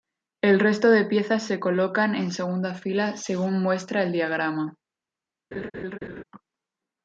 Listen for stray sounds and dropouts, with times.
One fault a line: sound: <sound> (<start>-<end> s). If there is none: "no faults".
sound: laugh (5.5-6.2 s)